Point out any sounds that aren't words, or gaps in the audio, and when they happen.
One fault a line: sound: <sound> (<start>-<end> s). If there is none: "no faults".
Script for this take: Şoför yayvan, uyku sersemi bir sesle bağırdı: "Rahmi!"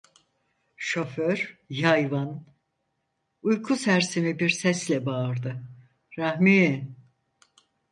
no faults